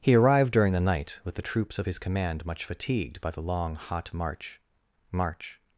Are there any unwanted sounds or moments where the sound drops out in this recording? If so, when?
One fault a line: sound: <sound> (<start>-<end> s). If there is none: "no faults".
no faults